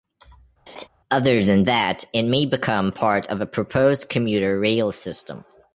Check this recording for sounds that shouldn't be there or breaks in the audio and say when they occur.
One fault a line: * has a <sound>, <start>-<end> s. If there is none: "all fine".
* has a laugh, 0.7-0.9 s